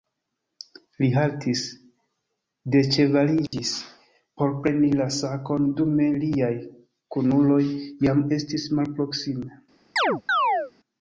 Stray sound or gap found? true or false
true